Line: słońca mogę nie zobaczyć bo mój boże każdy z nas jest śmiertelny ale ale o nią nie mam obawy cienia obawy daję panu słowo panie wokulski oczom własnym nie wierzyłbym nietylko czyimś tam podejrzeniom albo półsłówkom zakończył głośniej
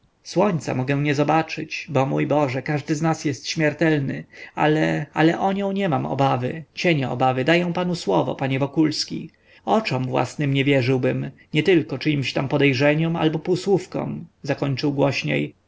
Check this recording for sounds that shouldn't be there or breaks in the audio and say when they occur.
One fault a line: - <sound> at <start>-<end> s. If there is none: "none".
none